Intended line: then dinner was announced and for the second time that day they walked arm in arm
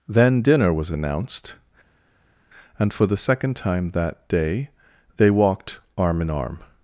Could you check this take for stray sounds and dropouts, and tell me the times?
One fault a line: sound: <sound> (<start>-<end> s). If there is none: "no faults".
no faults